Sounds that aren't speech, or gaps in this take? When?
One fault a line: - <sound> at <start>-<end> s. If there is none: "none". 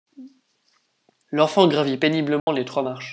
- dropout at 2.4-2.5 s